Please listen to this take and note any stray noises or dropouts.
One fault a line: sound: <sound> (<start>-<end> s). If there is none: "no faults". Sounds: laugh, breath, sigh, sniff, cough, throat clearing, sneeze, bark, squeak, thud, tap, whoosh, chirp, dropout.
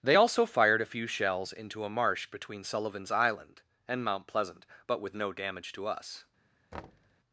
sound: thud (6.7-7.2 s)